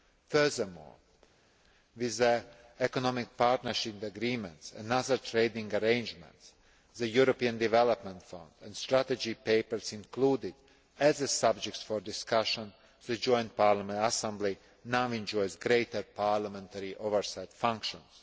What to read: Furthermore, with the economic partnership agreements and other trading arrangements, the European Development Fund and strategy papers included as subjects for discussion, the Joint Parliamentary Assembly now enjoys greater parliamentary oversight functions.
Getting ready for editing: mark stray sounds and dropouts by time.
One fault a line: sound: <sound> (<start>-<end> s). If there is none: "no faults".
no faults